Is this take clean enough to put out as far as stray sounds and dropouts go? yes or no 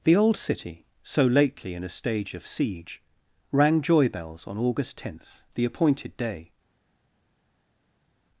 yes